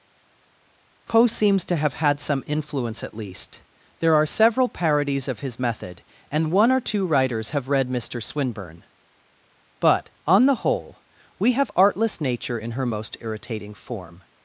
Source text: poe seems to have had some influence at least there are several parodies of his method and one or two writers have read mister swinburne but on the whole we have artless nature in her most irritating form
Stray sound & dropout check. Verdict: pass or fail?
pass